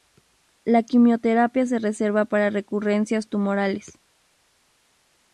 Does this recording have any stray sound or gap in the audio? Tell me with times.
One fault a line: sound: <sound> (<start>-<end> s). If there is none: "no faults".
no faults